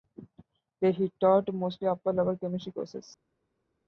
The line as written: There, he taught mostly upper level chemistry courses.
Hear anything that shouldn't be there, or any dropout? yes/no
no